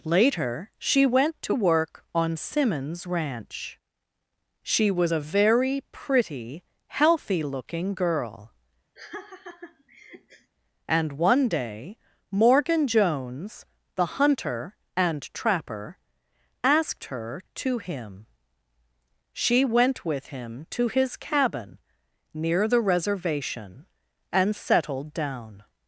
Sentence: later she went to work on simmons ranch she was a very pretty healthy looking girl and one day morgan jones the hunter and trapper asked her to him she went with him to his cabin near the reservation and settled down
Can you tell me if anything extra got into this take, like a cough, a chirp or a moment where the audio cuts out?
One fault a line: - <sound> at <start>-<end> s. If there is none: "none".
- laugh at 9.0-10.5 s